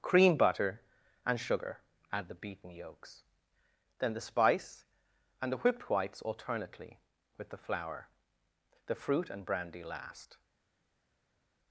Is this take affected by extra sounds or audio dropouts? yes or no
no